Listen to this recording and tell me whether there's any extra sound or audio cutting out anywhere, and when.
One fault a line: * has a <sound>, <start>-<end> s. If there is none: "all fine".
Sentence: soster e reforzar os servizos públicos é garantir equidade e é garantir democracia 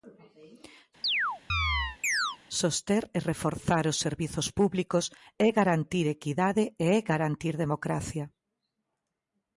* has a chirp, 1.0-2.4 s